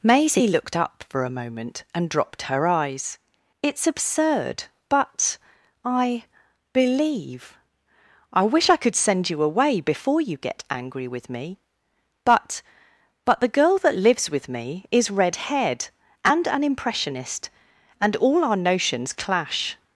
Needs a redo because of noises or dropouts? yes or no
no